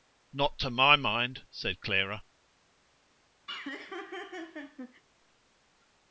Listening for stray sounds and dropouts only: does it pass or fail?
fail